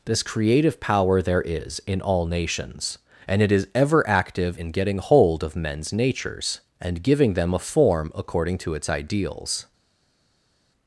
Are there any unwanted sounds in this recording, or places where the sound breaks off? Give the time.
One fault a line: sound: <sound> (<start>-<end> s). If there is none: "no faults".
no faults